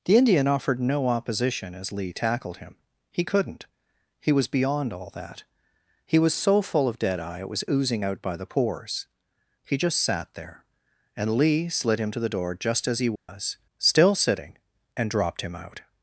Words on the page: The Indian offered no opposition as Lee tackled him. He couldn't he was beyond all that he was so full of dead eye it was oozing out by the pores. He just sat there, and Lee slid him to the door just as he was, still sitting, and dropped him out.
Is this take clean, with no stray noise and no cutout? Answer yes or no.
no